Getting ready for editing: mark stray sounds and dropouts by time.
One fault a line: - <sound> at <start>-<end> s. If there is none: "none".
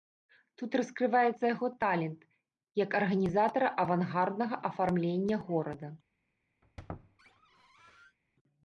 - squeak at 6.6-8.2 s